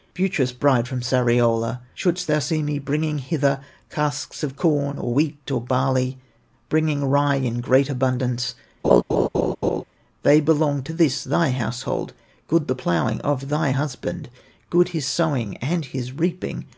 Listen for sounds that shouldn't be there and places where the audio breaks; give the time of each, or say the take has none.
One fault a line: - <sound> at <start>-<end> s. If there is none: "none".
- laugh at 8.8-9.8 s